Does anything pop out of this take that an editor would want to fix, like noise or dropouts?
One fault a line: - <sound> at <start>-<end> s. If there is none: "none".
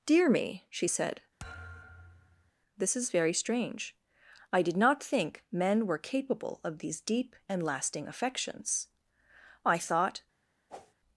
- thud at 1.4-2.5 s
- whoosh at 10.7-10.9 s